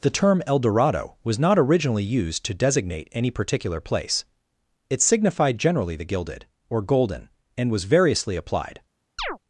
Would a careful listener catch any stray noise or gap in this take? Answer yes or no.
yes